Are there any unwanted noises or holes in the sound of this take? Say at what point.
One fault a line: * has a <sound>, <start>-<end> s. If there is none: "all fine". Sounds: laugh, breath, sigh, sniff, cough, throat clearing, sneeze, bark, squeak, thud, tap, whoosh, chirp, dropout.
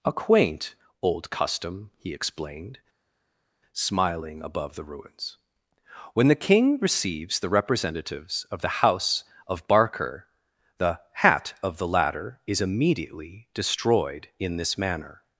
all fine